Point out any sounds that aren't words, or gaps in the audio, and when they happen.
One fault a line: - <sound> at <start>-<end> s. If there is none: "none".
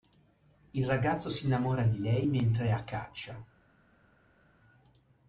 none